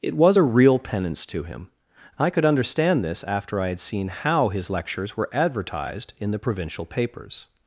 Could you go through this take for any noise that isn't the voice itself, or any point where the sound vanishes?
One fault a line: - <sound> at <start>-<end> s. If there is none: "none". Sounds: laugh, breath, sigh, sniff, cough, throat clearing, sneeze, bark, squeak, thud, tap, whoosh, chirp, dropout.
none